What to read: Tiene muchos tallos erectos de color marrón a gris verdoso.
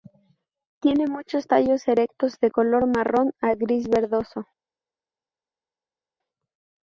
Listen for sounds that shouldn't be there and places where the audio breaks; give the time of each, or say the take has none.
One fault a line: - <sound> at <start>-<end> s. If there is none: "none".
none